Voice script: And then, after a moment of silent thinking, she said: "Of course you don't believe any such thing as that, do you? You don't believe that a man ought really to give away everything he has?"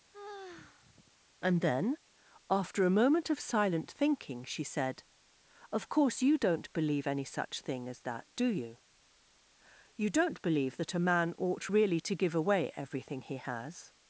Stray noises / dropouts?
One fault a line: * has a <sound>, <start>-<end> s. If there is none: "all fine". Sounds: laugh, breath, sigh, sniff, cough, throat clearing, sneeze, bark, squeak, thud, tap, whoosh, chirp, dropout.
* has a sigh, 0.1-1.1 s